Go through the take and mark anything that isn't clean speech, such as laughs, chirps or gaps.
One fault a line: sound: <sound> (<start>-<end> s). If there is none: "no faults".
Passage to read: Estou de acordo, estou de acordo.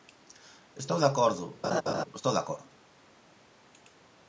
sound: laugh (1.6-2.0 s)